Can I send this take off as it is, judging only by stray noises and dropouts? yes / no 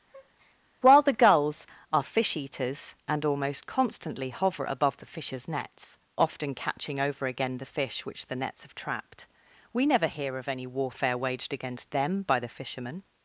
no